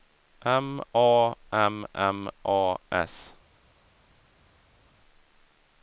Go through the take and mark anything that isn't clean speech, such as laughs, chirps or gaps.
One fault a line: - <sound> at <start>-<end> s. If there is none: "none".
none